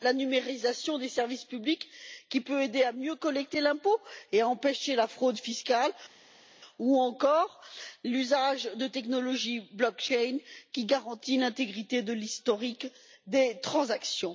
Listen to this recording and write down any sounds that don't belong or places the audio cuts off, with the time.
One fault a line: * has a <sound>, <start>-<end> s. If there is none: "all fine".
all fine